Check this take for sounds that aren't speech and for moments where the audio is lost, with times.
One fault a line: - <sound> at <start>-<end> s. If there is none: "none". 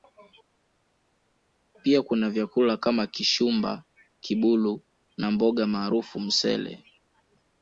none